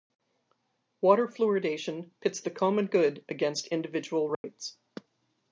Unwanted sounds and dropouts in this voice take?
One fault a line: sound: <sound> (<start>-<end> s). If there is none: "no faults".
sound: dropout (4.3-4.4 s)